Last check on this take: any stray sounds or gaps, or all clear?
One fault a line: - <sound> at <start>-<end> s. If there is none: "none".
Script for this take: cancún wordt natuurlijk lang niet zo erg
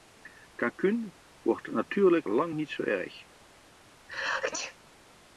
- sneeze at 4.1-4.8 s